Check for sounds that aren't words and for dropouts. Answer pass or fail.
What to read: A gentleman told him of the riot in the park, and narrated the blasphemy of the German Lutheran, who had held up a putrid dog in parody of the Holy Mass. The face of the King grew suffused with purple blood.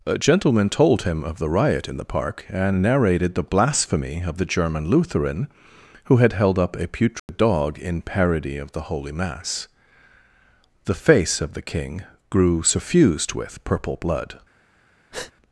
fail